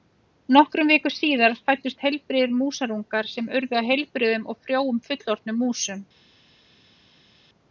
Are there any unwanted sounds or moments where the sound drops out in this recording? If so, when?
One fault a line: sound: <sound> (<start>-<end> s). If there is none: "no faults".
no faults